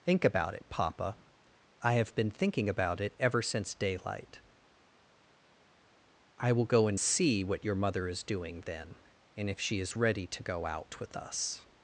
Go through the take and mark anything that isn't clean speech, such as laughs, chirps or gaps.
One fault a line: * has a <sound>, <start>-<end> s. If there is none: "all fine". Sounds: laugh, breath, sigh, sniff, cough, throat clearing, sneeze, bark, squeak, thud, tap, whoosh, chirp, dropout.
all fine